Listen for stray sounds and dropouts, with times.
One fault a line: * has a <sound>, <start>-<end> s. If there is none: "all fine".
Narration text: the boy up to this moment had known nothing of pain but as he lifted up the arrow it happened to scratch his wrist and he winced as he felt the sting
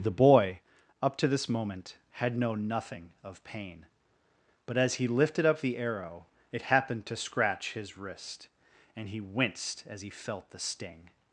all fine